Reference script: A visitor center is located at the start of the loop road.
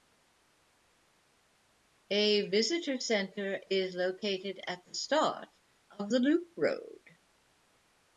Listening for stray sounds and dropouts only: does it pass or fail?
pass